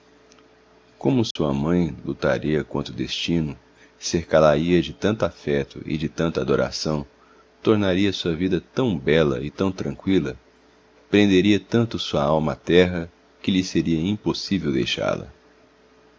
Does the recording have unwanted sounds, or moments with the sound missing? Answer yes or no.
yes